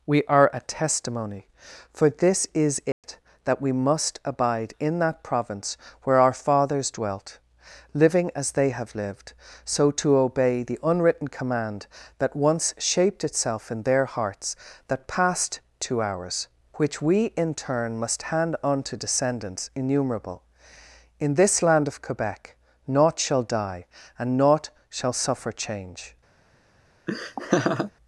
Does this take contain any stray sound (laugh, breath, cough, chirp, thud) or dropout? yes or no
yes